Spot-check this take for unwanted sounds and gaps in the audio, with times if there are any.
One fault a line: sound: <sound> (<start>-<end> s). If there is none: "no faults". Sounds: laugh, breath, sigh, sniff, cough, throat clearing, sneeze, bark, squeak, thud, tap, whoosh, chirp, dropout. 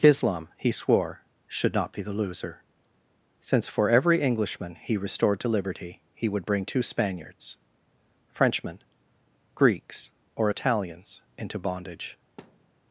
sound: thud (12.4-12.7 s)